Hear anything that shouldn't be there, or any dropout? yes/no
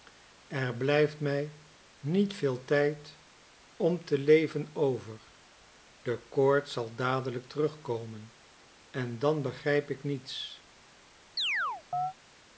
yes